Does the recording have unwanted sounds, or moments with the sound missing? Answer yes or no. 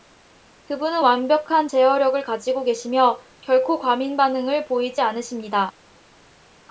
no